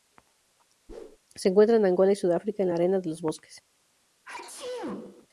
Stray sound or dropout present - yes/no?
yes